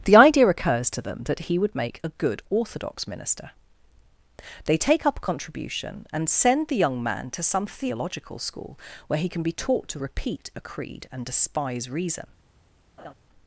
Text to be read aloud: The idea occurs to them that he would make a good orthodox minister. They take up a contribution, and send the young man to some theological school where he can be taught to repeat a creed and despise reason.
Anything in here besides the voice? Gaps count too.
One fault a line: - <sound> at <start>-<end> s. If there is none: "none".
- laugh at 13.0-13.1 s